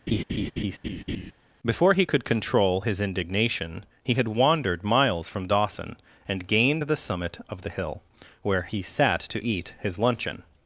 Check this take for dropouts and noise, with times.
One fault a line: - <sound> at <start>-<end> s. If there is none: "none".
- laugh at 0.1-1.3 s